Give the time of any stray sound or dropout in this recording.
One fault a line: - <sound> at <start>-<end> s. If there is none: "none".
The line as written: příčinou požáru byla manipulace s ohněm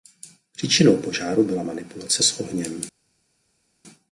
none